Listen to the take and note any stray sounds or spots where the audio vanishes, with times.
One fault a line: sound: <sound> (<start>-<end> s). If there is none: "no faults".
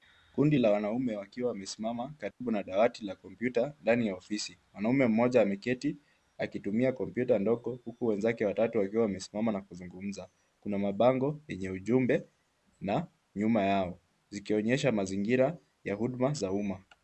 sound: dropout (2.3-2.4 s)